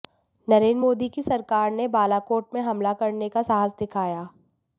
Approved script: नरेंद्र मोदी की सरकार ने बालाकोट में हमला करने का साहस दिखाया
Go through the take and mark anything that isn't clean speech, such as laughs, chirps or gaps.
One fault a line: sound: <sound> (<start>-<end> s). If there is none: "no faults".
no faults